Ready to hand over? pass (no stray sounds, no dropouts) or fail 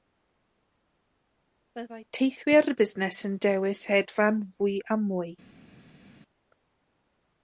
pass